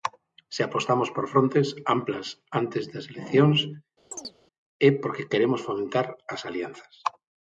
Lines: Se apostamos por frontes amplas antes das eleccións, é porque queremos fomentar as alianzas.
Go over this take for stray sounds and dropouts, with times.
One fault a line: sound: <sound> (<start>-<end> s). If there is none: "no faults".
sound: chirp (4.1-4.4 s)